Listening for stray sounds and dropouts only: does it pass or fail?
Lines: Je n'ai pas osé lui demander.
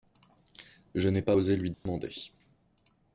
fail